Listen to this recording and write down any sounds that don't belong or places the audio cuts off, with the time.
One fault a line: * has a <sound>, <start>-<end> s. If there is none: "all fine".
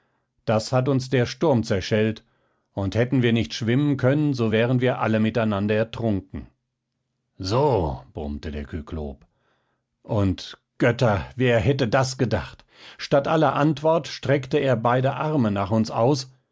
all fine